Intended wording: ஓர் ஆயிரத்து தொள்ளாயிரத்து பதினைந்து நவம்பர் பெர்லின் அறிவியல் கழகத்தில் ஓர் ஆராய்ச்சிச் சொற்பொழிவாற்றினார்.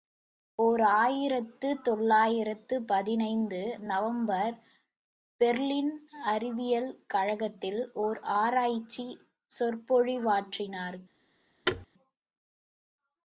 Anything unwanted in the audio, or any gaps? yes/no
yes